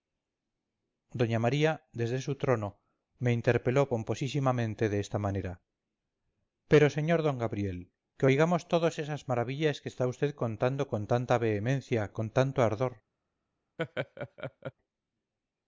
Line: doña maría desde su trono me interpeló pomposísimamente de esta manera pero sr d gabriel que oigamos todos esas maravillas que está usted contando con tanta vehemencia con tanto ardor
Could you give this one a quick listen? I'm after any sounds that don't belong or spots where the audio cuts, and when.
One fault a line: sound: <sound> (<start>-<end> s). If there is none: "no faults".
sound: laugh (13.8-14.7 s)